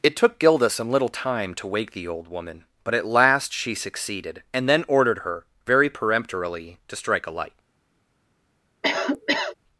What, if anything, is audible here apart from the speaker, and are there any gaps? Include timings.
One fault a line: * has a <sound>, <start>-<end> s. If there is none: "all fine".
* has a cough, 8.8-9.6 s